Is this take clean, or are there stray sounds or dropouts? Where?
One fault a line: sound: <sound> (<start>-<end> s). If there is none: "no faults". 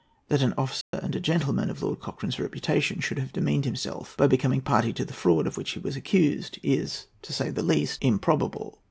sound: dropout (0.8-0.9 s)